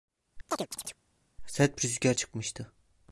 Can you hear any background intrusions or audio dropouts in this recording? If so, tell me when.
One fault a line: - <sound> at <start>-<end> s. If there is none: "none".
- chirp at 0.5-1.0 s